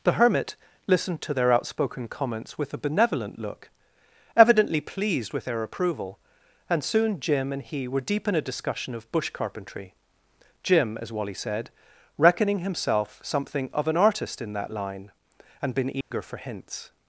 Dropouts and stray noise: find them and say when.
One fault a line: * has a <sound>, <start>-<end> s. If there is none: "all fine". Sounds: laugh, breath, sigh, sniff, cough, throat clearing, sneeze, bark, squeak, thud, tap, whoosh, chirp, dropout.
* has a dropout, 16.0-16.1 s